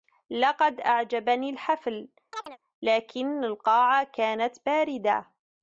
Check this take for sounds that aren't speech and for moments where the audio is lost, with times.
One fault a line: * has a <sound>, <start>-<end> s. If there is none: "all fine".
* has a chirp, 2.3-2.6 s